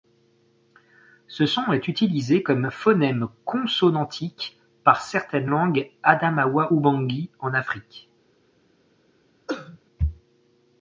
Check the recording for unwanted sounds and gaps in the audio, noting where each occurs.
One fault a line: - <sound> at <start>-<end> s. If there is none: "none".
- cough at 9.5-9.8 s